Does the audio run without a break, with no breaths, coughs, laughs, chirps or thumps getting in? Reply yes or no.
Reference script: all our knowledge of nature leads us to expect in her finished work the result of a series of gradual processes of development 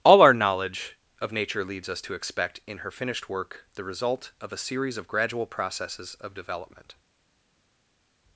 yes